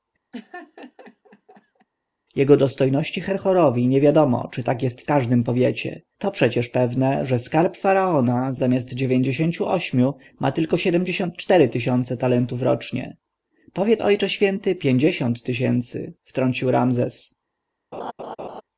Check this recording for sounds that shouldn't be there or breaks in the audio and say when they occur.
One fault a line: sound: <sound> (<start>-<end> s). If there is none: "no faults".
sound: laugh (0.3-1.9 s)
sound: laugh (17.9-18.6 s)